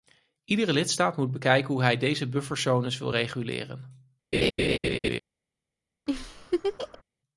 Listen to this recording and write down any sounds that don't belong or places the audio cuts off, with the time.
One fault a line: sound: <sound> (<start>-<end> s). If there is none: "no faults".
sound: laugh (4.3-5.2 s)
sound: laugh (6.1-7.0 s)